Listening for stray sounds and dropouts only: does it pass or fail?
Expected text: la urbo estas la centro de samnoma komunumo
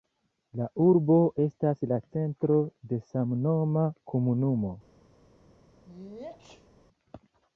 fail